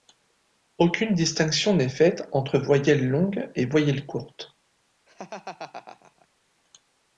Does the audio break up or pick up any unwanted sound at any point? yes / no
yes